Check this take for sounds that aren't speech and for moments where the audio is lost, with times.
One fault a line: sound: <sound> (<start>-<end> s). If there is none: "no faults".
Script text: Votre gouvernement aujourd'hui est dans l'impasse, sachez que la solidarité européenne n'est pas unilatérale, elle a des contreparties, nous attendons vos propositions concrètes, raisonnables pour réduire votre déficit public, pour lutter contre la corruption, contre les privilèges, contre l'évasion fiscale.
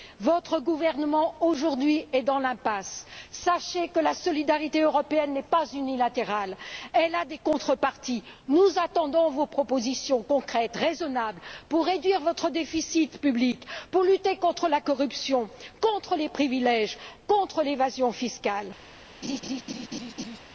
sound: laugh (19.2-20.4 s)